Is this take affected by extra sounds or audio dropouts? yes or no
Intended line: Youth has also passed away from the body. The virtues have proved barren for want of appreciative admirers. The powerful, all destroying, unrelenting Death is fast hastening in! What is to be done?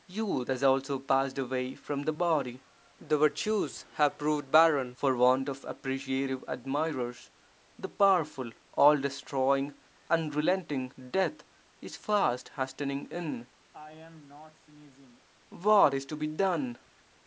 yes